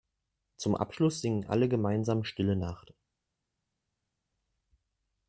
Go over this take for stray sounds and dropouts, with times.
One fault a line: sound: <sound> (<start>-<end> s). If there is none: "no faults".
no faults